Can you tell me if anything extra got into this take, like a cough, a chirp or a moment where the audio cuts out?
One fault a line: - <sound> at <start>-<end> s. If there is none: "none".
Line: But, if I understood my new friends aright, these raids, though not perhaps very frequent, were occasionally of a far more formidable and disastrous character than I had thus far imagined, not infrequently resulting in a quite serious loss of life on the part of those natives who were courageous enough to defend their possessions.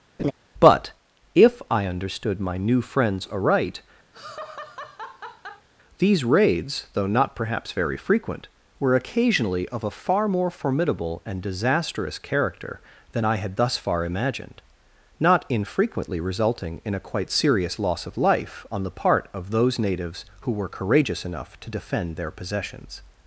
- laugh at 0.2-0.3 s
- laugh at 4.1-5.7 s